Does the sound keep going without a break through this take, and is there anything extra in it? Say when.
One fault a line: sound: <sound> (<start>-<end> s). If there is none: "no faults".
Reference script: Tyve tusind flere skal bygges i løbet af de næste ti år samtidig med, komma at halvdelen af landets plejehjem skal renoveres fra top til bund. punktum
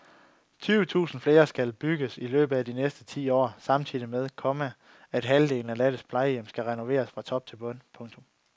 no faults